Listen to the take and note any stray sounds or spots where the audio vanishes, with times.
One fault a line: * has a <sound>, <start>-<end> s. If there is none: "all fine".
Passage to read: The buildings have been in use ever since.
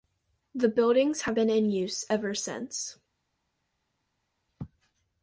all fine